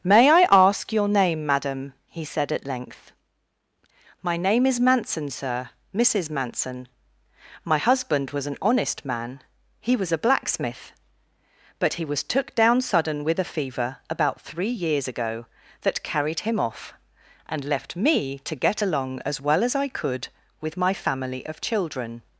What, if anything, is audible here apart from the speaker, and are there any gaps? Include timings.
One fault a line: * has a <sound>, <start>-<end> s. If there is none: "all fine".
all fine